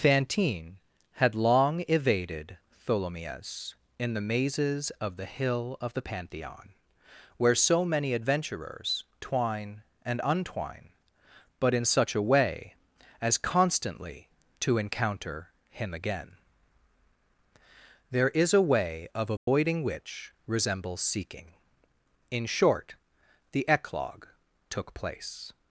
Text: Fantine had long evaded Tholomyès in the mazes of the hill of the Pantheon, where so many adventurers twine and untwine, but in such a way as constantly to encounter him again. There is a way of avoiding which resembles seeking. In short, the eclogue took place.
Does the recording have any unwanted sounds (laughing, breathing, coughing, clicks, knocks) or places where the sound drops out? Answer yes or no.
yes